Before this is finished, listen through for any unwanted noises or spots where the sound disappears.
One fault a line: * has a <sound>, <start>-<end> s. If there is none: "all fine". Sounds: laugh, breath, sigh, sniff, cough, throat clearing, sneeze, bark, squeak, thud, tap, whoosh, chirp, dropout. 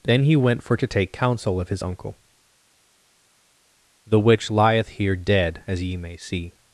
all fine